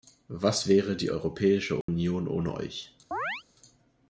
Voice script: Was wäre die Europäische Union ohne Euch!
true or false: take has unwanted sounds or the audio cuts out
true